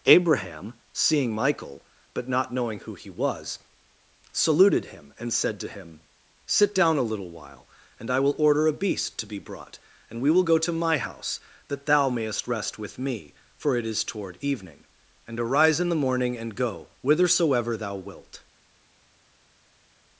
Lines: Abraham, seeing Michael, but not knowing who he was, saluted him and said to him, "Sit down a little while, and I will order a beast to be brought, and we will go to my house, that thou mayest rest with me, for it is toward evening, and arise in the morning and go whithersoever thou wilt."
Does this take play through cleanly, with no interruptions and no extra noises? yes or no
yes